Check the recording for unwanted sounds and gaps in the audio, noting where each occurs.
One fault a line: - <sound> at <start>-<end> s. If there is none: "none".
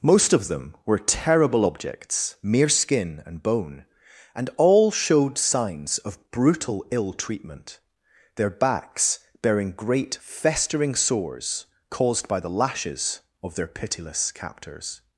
none